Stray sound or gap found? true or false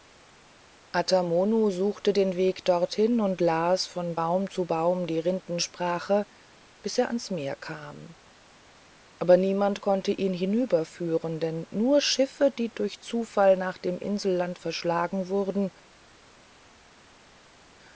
false